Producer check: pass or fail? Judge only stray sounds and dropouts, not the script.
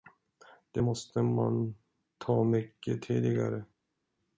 pass